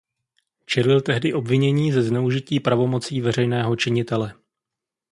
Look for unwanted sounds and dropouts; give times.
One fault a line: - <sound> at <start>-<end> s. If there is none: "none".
none